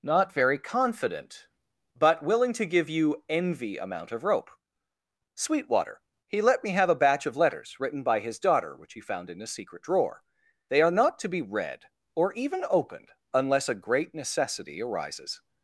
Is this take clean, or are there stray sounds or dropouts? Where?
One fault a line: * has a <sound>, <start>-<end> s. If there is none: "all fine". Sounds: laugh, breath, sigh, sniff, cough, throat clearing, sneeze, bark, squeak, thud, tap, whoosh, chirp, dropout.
all fine